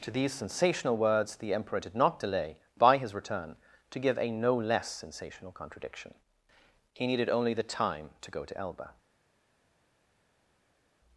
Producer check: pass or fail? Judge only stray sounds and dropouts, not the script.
pass